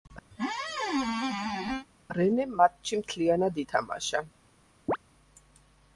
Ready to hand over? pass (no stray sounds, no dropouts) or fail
fail